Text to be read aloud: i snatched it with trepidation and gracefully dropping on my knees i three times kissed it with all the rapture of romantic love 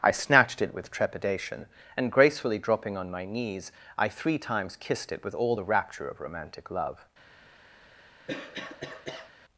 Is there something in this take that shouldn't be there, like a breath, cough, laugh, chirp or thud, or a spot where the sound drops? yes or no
yes